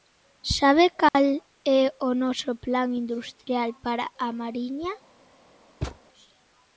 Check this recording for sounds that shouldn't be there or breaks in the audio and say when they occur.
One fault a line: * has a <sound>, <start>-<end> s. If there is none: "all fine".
* has a dropout, 1.1-1.1 s
* has a thud, 5.8-6.0 s